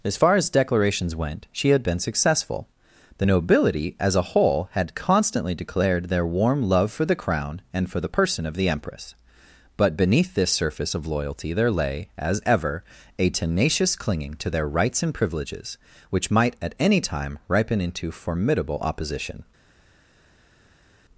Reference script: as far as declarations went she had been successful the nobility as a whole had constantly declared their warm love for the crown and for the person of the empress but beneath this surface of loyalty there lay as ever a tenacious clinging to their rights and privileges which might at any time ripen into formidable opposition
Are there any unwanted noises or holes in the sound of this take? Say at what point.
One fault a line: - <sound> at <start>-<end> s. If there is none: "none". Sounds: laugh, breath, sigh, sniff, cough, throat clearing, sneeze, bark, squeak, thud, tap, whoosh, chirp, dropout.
none